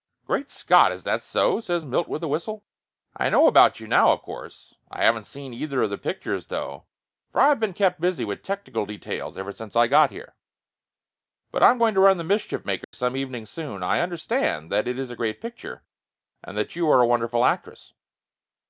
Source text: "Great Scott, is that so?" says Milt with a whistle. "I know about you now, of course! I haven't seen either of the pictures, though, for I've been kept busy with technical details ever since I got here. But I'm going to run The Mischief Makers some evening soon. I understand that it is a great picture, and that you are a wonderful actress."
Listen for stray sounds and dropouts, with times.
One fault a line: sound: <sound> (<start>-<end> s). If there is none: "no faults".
sound: dropout (12.8-12.9 s)